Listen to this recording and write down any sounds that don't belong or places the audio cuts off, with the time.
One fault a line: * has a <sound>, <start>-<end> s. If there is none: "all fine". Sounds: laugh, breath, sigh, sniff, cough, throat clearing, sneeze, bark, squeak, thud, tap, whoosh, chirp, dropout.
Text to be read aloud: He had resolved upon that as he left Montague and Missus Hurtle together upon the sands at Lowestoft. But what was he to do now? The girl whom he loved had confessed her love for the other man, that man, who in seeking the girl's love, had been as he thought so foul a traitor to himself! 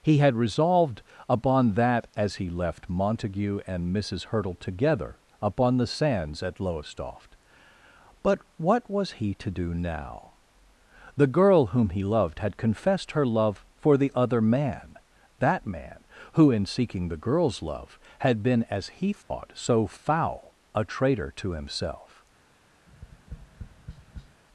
* has a dropout, 19.2-19.3 s
* has a tap, 22.9-24.4 s